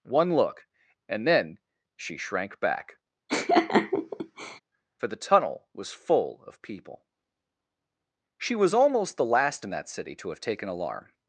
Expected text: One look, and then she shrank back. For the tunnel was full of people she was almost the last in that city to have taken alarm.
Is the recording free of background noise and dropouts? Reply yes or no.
no